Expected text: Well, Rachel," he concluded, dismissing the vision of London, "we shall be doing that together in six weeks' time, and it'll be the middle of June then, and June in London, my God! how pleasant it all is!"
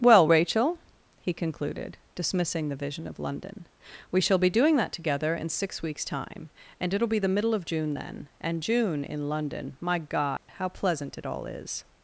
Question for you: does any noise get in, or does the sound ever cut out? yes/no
yes